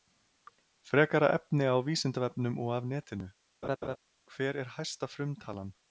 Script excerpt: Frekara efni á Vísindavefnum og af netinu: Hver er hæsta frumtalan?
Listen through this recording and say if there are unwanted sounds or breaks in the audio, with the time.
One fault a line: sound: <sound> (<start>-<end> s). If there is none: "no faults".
sound: laugh (3.6-4.0 s)